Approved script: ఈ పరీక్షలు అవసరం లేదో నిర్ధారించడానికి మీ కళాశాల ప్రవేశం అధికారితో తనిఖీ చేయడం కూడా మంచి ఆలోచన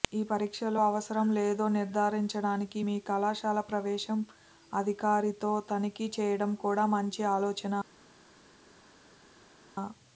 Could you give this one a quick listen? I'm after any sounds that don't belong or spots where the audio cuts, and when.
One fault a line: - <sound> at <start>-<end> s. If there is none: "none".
none